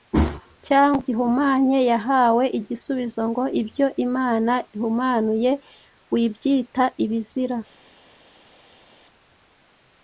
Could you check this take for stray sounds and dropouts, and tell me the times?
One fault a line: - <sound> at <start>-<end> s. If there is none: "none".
none